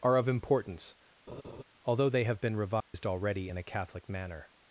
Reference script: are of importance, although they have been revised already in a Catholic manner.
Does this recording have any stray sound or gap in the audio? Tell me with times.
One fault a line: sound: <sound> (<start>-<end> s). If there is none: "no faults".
sound: laugh (1.3-1.6 s)
sound: dropout (2.8-2.9 s)